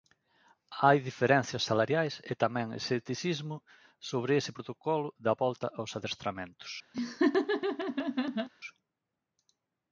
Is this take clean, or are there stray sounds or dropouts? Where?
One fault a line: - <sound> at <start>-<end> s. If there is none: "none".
- laugh at 6.9-8.5 s